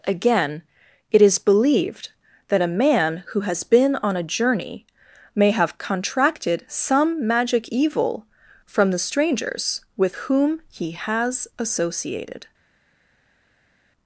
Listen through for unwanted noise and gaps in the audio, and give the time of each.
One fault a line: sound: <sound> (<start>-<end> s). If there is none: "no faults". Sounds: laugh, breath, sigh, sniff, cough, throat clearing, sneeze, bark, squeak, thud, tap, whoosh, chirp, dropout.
no faults